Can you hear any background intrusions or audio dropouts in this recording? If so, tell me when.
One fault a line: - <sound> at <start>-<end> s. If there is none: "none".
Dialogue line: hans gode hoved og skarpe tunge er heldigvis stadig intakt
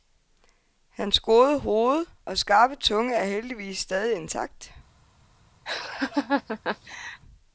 - laugh at 5.7-7.2 s